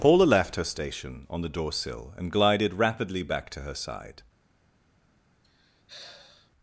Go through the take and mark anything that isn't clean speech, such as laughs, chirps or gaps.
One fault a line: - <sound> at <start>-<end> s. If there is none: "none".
- sigh at 5.4-6.5 s